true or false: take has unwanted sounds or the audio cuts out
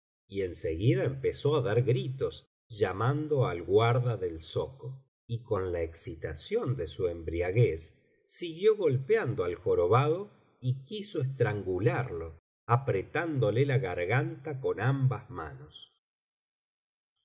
false